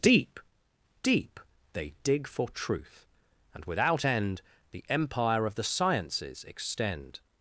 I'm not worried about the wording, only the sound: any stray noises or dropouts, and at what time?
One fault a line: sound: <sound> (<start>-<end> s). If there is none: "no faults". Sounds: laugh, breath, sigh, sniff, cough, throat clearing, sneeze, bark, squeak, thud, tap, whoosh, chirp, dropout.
no faults